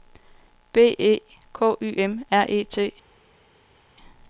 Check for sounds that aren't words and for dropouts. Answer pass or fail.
pass